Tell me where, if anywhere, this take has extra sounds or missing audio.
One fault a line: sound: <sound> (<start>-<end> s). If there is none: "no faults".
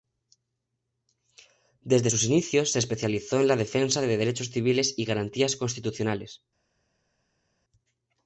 no faults